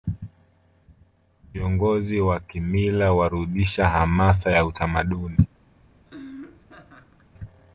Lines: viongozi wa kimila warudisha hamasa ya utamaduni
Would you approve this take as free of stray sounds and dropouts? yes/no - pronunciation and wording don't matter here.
no